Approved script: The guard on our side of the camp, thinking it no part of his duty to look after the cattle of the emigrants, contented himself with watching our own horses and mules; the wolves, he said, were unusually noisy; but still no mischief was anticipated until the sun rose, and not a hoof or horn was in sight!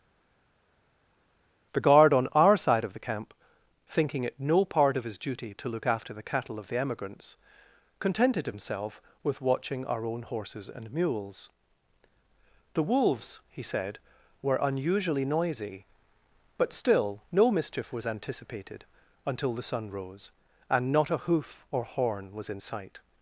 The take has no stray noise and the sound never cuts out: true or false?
true